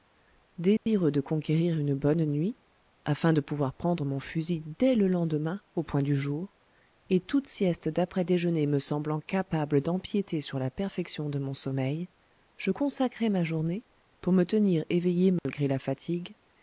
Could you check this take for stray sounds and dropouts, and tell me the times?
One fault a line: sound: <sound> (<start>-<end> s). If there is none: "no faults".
sound: dropout (0.8-0.9 s)
sound: dropout (15.4-15.5 s)